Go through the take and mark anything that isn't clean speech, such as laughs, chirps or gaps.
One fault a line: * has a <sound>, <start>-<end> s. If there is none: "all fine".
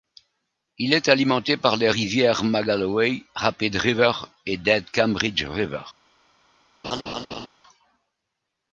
* has a laugh, 6.8-7.5 s